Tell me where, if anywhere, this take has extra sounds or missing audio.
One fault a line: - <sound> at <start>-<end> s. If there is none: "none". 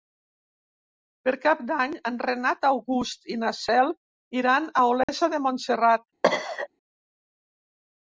- dropout at 5.0-5.1 s
- cough at 6.2-6.7 s